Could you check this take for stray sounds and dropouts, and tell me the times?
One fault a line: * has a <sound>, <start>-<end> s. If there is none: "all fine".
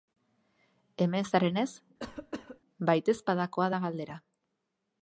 * has a cough, 2.0-2.6 s